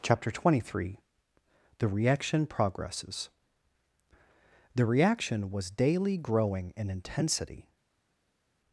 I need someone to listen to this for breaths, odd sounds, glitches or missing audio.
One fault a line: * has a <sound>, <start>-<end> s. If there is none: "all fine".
all fine